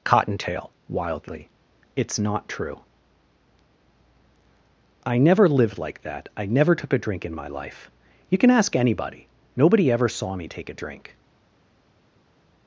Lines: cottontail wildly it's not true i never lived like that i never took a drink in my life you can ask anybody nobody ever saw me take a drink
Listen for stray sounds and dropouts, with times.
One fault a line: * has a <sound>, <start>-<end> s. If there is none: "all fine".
all fine